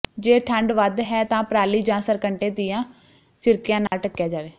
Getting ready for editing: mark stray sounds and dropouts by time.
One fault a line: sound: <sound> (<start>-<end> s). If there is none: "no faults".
sound: dropout (3.9-3.9 s)